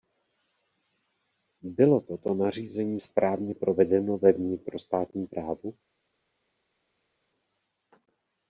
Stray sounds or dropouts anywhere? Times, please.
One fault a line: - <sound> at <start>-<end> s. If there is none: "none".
none